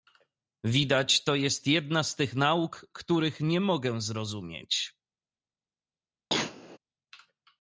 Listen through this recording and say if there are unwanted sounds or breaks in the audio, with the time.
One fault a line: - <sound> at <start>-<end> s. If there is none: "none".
- cough at 6.3-6.8 s